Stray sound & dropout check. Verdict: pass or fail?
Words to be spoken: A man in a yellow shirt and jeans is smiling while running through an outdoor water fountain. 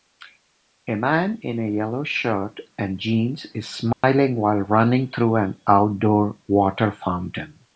fail